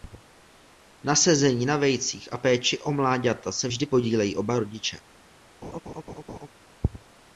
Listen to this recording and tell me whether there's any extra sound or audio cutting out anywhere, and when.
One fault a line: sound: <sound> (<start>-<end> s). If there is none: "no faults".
sound: laugh (5.6-6.5 s)